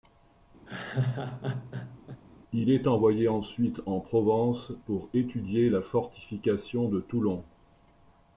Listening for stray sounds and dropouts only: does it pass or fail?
fail